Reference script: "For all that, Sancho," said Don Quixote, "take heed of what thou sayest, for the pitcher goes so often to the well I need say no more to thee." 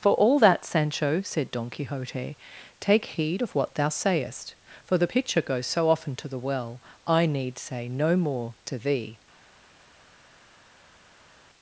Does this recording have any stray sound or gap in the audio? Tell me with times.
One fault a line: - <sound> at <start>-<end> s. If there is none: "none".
none